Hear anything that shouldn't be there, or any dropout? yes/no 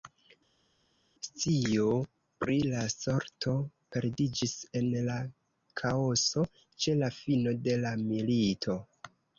no